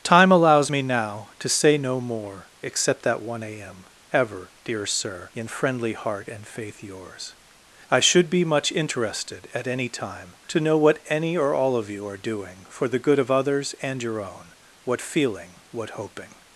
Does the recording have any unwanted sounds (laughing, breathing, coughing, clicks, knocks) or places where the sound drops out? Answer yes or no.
no